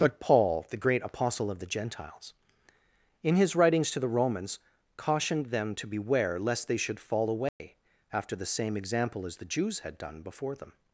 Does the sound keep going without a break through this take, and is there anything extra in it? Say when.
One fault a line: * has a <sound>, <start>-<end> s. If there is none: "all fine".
* has a dropout, 7.5-7.6 s